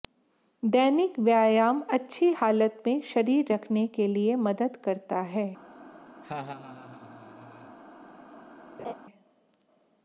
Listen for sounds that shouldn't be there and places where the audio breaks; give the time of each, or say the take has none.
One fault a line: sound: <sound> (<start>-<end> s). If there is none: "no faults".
sound: laugh (6.2-7.8 s)
sound: laugh (8.8-8.9 s)